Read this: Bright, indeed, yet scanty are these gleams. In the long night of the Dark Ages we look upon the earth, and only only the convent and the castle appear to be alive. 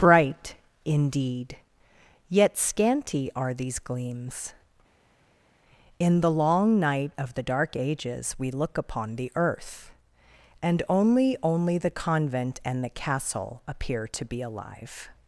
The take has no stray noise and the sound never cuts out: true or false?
true